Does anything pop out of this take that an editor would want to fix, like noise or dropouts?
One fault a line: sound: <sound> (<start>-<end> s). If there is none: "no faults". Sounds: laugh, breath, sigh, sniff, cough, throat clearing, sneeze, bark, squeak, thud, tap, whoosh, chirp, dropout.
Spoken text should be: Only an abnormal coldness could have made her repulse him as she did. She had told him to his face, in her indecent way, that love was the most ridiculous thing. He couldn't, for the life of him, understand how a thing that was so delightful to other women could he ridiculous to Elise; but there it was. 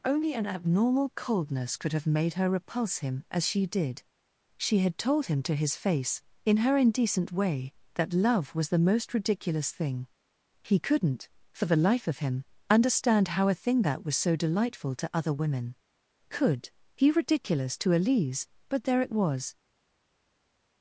no faults